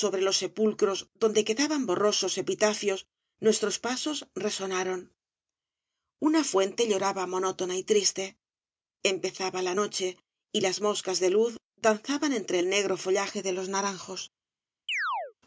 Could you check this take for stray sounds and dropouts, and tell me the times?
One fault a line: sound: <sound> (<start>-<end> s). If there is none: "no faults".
sound: chirp (14.9-15.3 s)